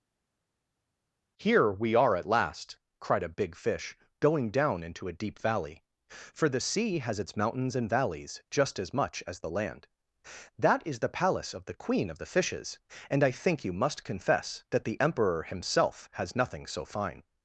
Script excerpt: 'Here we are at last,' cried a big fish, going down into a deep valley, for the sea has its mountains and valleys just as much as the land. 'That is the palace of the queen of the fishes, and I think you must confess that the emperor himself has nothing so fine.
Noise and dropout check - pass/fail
pass